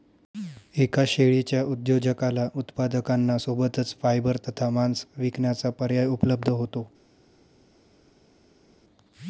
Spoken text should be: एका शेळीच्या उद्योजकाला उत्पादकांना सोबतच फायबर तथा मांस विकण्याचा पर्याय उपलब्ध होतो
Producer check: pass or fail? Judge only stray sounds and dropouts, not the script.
pass